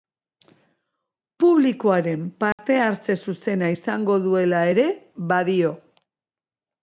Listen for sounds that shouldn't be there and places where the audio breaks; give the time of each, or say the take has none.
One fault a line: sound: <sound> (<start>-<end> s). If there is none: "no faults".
sound: dropout (2.5-2.6 s)